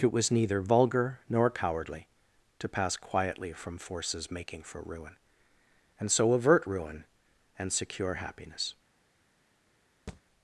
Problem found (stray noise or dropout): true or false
true